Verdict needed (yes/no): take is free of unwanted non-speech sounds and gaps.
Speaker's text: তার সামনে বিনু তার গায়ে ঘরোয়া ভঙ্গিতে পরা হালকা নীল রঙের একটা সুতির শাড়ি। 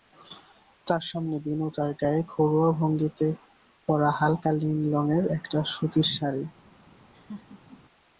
no